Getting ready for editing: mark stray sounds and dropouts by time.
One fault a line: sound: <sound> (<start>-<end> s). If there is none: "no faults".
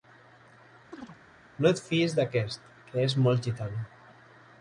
sound: chirp (0.9-1.2 s)